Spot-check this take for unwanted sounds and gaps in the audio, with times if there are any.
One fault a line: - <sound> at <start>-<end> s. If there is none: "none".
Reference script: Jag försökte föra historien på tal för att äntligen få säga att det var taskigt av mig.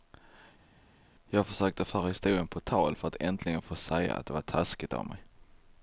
none